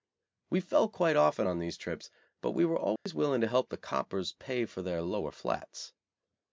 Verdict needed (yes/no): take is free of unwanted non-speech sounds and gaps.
no